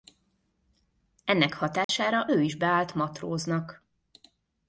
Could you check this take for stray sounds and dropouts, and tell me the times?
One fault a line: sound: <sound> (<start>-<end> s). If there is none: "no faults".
sound: dropout (1.8-1.9 s)